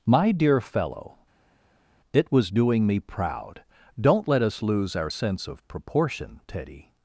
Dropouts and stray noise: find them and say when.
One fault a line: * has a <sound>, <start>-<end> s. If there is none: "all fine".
all fine